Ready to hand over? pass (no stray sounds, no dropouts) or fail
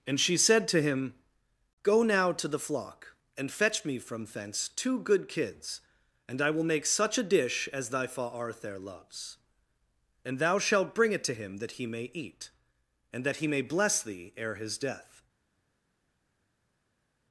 pass